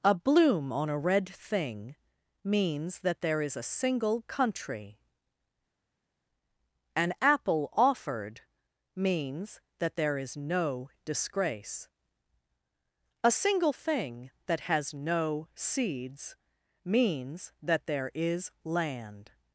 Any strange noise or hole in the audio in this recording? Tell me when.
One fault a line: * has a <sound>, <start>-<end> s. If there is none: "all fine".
all fine